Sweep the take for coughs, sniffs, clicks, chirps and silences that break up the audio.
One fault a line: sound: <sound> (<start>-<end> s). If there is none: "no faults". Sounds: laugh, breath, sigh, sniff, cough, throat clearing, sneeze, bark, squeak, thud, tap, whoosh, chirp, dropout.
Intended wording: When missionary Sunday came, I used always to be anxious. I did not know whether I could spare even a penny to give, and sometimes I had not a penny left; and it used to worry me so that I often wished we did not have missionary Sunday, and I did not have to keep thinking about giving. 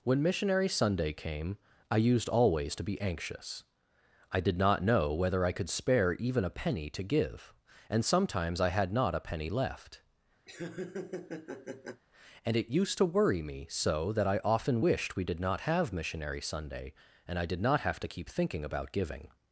sound: laugh (10.5-12.0 s)